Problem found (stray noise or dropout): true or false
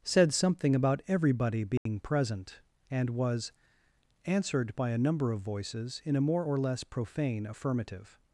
true